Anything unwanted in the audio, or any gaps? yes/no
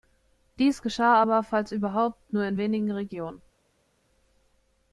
no